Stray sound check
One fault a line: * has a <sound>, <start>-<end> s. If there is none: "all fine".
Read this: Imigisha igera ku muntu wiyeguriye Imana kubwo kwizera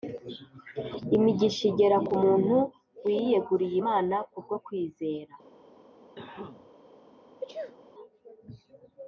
* has a cough, 6.2-6.7 s
* has a sneeze, 7.4-7.8 s